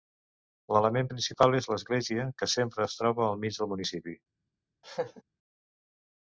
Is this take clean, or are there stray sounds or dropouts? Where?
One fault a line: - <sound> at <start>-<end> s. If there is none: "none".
- laugh at 4.8-5.2 s